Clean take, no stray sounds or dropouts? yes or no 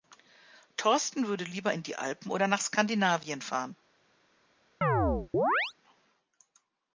no